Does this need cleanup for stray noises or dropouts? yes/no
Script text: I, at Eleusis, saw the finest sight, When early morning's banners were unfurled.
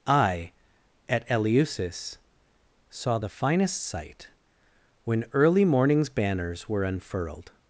no